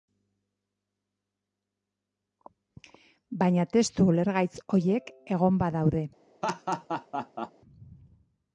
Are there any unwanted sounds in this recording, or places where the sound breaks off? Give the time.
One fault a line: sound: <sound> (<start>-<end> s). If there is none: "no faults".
sound: laugh (6.4-7.5 s)